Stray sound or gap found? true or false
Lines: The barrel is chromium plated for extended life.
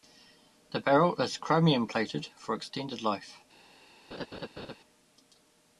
true